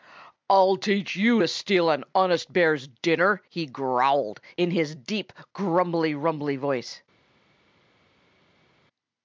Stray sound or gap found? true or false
false